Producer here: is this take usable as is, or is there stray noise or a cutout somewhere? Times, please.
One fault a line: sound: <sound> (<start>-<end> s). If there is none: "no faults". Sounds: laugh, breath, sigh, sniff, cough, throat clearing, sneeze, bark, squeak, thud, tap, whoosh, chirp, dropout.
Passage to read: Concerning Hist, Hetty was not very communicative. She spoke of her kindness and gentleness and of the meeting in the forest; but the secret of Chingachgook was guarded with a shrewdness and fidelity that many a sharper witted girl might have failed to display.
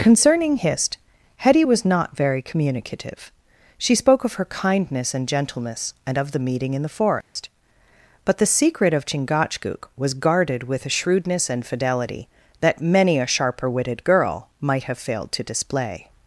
sound: dropout (7.2-7.4 s)